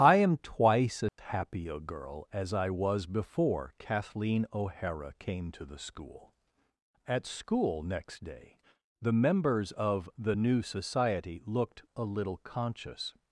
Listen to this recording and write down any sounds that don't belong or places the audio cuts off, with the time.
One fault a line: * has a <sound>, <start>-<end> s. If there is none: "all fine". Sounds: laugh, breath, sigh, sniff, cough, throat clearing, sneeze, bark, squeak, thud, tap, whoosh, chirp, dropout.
* has a dropout, 1.1-1.2 s